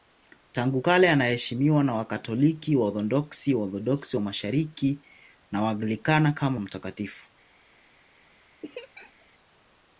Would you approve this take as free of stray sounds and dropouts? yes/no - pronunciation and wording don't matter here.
no